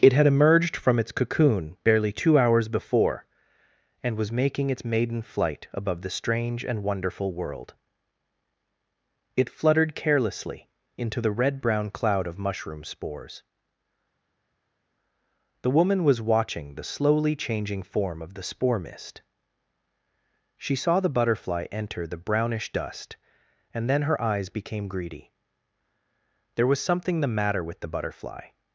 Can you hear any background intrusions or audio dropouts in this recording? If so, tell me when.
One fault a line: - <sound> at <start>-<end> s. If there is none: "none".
none